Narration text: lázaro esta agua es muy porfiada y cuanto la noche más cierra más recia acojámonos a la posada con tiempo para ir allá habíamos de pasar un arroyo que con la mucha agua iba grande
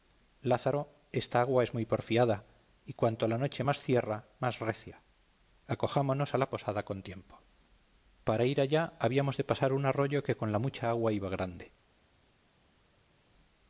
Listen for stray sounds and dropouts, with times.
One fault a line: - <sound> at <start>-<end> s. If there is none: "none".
none